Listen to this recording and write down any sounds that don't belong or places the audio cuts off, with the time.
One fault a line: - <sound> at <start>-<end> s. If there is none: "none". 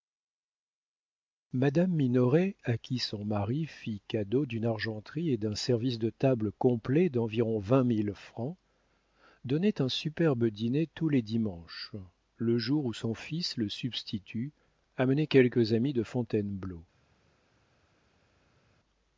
none